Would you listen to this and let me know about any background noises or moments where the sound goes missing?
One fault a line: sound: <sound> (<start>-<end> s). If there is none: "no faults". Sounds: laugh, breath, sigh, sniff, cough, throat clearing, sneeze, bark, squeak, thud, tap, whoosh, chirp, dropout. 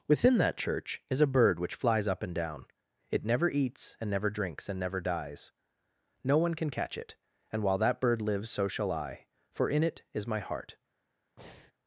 sound: breath (11.4-11.7 s)